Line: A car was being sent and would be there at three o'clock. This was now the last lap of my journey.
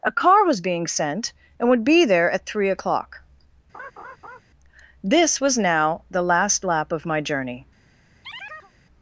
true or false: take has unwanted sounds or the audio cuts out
true